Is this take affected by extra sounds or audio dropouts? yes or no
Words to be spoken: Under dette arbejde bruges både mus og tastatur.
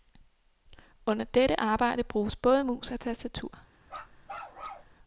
yes